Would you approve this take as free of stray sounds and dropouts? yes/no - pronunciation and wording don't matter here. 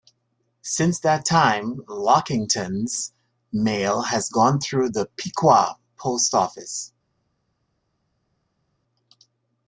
yes